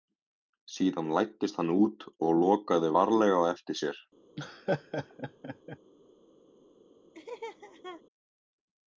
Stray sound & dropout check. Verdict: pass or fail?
fail